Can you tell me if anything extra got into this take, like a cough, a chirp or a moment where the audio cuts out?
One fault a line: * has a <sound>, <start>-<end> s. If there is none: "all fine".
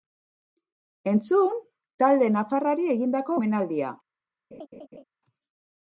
* has a laugh, 4.5-5.0 s